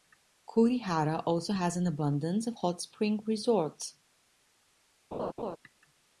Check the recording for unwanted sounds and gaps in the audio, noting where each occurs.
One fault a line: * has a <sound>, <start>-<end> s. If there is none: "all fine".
* has a laugh, 5.1-5.6 s